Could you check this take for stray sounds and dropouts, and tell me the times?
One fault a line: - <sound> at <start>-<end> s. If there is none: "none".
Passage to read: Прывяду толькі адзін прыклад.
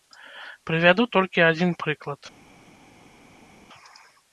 none